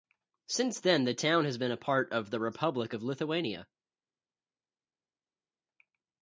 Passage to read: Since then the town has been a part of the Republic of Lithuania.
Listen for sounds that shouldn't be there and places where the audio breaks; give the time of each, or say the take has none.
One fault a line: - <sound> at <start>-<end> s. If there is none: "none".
none